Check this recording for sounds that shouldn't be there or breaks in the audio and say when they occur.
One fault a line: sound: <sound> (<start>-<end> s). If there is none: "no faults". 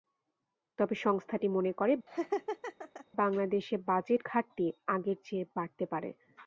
sound: laugh (2.1-3.1 s)